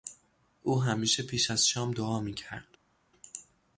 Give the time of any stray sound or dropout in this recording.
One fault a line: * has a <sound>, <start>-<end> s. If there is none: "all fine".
all fine